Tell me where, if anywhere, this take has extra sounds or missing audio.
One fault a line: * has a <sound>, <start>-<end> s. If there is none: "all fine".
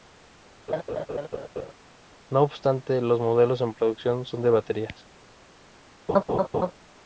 * has a laugh, 0.7-1.7 s
* has a laugh, 6.1-6.7 s